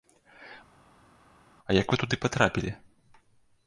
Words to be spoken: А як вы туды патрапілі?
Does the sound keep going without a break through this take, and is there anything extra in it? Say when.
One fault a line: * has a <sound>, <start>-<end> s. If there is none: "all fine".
all fine